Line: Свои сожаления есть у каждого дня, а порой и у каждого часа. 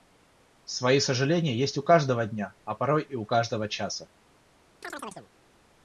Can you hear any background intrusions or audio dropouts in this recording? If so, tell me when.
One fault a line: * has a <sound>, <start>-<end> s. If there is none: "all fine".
* has a chirp, 4.8-5.3 s